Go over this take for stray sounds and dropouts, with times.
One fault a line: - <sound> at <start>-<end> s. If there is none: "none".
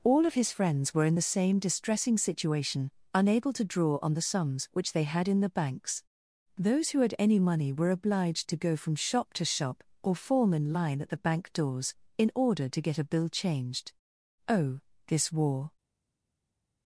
none